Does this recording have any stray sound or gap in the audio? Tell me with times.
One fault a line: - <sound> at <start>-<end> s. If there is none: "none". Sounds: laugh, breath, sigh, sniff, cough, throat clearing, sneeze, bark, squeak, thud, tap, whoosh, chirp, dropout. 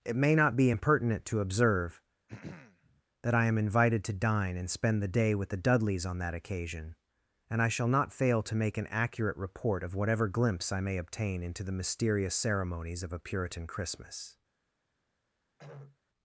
- throat clearing at 2.3-3.0 s
- throat clearing at 15.6-16.0 s